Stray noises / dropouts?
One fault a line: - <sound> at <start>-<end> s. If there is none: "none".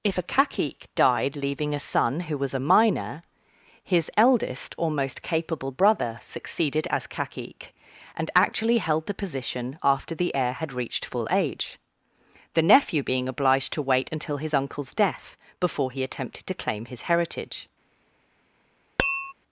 - tap at 19.0-19.3 s